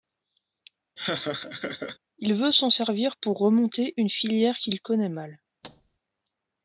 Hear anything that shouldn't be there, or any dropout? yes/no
yes